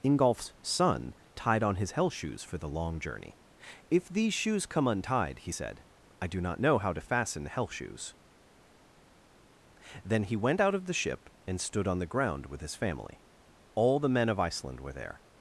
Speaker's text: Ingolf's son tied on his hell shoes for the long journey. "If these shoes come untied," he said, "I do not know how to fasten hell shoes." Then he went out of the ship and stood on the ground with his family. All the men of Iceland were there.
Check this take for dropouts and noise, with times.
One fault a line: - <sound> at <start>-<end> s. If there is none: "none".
none